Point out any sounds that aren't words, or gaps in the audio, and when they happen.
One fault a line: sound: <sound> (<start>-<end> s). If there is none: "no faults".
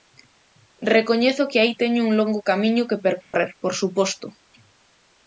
sound: dropout (3.2-3.3 s)